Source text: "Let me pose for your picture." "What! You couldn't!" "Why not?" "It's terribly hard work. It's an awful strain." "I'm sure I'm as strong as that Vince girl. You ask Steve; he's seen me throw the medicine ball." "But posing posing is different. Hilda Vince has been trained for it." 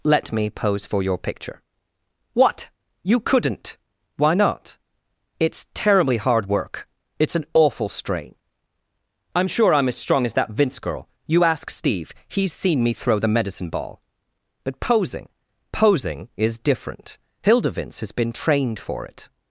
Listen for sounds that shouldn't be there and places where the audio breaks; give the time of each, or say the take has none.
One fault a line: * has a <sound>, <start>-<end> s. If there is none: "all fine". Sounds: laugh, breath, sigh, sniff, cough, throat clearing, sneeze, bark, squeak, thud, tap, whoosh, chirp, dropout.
all fine